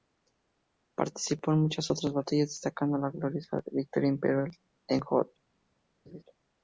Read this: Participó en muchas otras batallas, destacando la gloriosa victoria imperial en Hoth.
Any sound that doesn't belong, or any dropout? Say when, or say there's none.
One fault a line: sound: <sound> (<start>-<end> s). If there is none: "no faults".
sound: laugh (6.1-6.2 s)